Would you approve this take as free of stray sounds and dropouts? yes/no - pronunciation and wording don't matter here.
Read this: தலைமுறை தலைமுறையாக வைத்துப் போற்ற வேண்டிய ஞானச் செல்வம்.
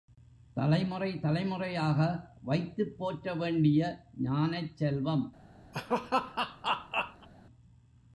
no